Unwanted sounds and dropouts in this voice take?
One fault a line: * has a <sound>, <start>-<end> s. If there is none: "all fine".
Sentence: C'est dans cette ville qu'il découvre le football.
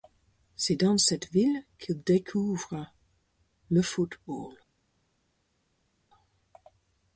all fine